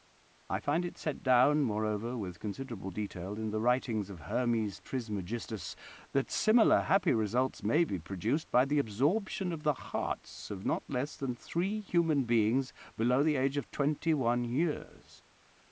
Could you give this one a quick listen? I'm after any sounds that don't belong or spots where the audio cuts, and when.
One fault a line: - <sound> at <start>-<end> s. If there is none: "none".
none